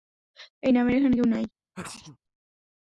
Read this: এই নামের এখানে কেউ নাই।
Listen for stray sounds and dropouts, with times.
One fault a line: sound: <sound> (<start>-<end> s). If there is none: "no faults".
sound: sneeze (1.7-2.2 s)